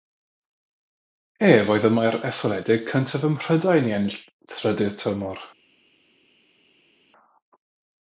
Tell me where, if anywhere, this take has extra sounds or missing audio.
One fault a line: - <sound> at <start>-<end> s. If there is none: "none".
none